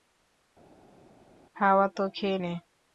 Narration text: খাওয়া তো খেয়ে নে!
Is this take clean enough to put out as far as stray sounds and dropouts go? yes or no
yes